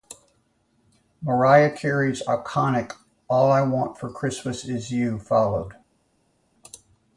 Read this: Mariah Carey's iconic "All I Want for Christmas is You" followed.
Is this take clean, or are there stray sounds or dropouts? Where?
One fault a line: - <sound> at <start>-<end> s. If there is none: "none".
none